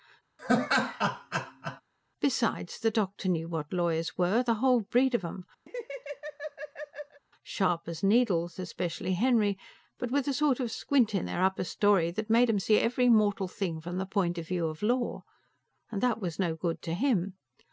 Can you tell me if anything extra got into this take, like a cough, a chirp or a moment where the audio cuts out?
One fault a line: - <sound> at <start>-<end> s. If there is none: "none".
- laugh at 0.4-1.8 s
- laugh at 5.7-7.2 s